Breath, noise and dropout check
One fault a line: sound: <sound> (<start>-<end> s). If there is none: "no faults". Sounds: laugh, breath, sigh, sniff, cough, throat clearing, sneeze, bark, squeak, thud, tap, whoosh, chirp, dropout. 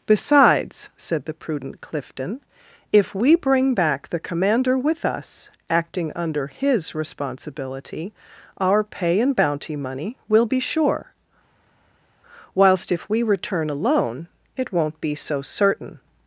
no faults